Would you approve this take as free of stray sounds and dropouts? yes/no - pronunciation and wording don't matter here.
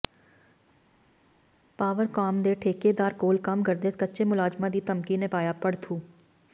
yes